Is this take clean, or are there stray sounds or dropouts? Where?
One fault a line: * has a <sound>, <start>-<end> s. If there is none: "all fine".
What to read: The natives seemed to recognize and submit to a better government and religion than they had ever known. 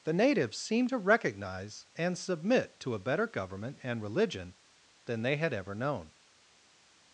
all fine